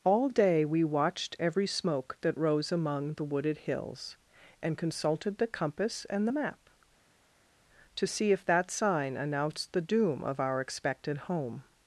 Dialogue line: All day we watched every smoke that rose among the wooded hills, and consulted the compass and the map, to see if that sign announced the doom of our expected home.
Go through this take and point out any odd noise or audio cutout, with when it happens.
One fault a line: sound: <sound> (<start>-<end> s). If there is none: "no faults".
no faults